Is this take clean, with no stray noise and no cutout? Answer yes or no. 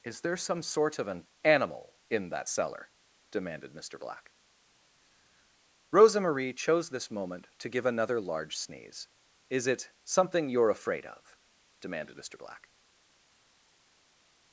yes